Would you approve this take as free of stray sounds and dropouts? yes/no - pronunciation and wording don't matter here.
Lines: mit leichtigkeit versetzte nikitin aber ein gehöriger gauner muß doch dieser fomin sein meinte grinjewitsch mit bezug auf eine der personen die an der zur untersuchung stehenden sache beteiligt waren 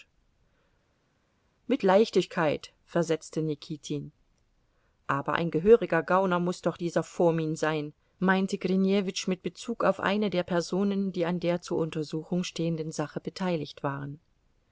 yes